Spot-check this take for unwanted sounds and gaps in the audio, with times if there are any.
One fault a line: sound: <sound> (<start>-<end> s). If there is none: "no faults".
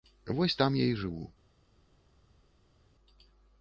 no faults